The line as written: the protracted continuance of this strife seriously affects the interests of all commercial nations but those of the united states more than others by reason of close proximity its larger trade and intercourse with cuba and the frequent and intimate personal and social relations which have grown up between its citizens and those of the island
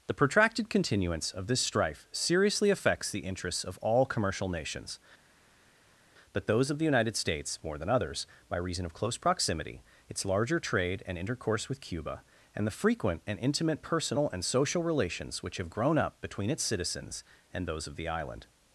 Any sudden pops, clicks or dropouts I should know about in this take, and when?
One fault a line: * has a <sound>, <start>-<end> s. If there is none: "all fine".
all fine